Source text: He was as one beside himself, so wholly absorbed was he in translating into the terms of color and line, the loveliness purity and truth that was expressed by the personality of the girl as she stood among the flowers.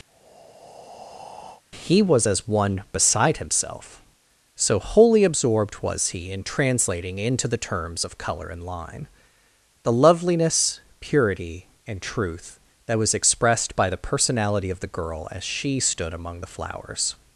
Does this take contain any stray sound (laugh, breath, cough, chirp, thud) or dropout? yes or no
yes